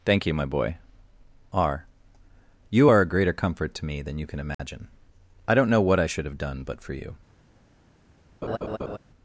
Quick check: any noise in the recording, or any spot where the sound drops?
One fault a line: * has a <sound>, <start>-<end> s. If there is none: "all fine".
* has a dropout, 4.5-4.6 s
* has a laugh, 8.4-9.0 s